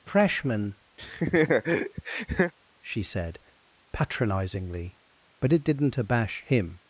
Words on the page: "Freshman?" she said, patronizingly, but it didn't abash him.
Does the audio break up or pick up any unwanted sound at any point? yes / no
yes